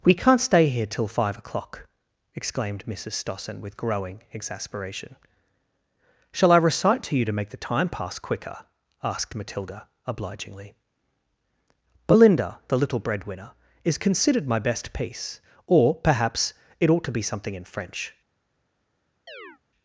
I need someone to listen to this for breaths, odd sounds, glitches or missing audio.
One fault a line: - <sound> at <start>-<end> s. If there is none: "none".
- chirp at 19.3-19.6 s